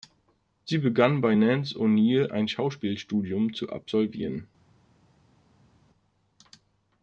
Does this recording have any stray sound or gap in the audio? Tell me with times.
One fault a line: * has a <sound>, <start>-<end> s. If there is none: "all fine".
all fine